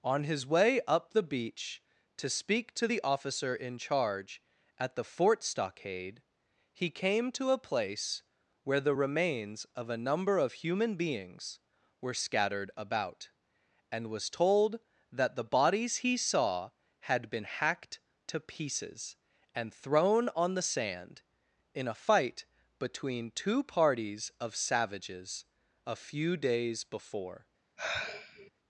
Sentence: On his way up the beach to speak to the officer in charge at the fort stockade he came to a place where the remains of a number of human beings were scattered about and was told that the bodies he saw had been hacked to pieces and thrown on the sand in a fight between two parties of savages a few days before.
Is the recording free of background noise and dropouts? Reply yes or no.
no